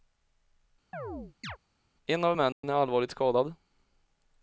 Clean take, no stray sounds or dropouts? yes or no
no